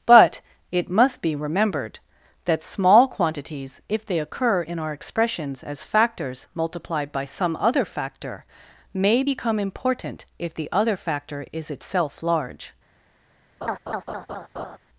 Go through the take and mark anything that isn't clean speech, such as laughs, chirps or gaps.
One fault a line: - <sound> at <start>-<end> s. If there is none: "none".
- laugh at 13.6-14.8 s